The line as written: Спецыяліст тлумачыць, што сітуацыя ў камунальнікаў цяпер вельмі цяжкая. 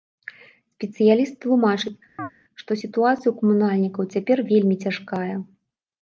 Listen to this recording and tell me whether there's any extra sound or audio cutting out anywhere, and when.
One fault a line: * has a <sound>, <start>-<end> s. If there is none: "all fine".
* has a chirp, 2.2-2.3 s